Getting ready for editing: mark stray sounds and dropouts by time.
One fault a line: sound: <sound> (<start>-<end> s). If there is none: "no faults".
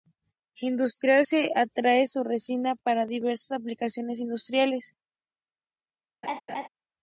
sound: laugh (6.2-6.7 s)